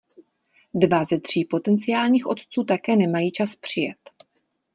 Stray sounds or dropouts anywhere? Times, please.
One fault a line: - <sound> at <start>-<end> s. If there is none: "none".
none